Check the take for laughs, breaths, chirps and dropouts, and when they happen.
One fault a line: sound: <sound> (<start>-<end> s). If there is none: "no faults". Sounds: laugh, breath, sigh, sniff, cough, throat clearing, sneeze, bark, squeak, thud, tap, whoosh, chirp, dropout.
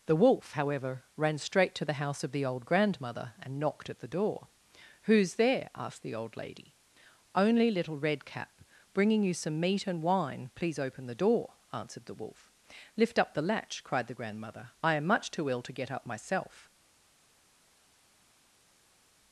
no faults